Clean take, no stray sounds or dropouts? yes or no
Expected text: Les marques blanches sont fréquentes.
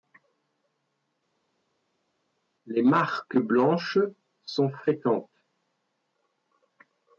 yes